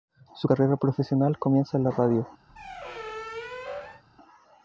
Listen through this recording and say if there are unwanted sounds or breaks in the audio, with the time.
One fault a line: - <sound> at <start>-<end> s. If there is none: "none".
- squeak at 2.5-4.0 s